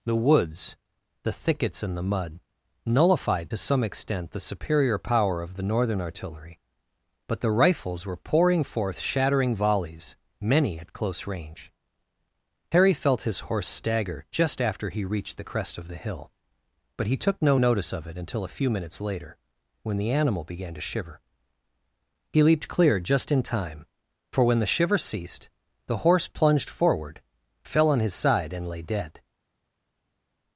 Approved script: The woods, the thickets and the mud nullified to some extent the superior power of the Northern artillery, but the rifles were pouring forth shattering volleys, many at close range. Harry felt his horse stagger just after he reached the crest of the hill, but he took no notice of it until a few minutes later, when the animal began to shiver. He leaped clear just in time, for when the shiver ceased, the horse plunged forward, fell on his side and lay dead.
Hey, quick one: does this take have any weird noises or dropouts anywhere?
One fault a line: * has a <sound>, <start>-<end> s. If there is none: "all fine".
all fine